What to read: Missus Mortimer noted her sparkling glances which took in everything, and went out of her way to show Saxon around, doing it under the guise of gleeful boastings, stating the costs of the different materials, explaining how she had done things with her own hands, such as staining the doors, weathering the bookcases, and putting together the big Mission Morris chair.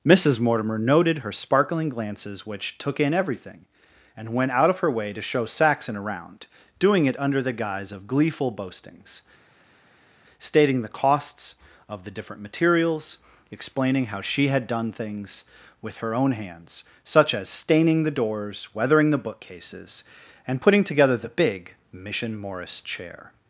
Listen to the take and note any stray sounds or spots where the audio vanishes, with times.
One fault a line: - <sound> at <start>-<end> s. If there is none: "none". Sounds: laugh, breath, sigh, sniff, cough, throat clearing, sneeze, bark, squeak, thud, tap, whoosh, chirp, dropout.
none